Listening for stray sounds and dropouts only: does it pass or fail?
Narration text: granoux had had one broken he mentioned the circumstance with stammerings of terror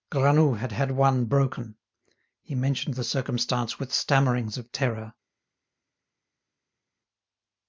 pass